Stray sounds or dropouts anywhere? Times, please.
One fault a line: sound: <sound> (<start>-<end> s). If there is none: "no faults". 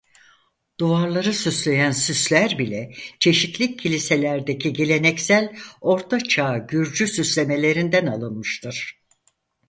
no faults